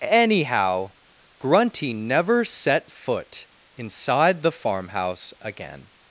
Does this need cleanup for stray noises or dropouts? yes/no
no